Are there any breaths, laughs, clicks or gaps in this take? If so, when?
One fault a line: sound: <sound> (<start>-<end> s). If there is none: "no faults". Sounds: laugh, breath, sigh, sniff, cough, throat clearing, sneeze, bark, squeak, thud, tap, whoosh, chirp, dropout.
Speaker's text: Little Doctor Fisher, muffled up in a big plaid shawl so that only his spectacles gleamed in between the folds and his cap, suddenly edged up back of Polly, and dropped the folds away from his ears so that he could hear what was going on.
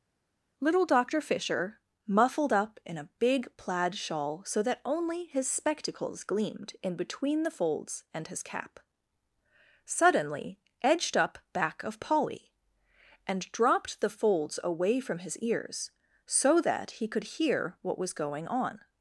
no faults